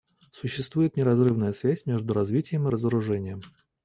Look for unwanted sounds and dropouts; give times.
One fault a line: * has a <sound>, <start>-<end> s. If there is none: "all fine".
all fine